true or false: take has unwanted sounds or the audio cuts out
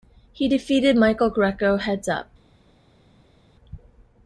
false